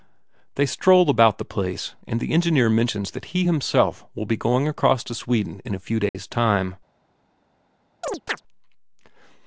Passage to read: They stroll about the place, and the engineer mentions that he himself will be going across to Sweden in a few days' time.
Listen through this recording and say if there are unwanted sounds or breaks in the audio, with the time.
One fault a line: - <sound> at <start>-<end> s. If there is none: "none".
- dropout at 6.1-6.1 s
- chirp at 8.0-8.4 s